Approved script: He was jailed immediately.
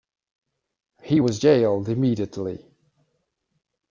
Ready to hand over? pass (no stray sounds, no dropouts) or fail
pass